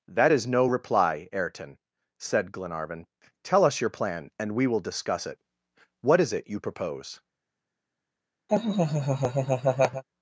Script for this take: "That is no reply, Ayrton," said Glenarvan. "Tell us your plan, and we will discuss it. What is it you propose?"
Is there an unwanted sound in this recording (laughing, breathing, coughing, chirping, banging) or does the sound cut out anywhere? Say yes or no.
yes